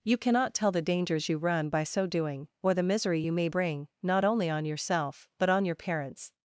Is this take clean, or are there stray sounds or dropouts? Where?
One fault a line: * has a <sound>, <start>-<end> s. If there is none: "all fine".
all fine